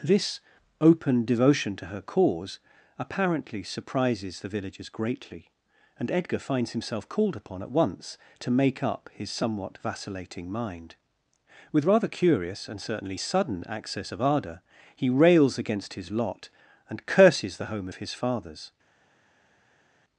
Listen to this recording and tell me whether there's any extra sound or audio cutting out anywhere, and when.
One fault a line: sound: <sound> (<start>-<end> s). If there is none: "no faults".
no faults